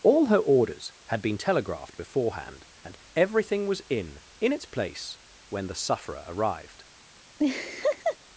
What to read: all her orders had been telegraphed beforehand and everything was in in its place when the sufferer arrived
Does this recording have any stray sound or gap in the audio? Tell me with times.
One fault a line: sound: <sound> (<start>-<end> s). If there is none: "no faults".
sound: laugh (7.4-8.2 s)